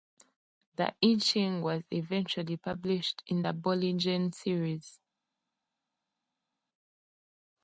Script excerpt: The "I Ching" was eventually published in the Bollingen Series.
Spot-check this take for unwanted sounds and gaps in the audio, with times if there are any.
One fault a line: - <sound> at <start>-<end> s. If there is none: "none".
none